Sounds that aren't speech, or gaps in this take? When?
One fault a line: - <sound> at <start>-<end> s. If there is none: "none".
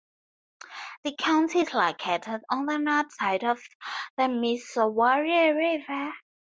none